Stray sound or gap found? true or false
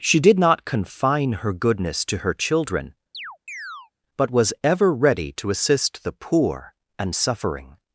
true